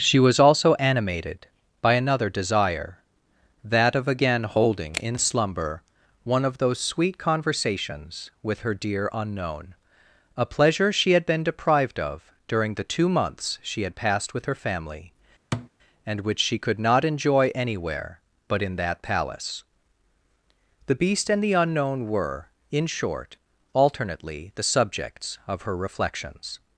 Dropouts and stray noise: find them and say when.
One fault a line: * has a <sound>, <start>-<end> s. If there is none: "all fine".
* has a thud, 15.5-15.7 s